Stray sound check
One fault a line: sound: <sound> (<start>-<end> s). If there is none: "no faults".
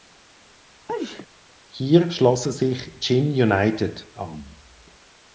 sound: sneeze (0.9-1.3 s)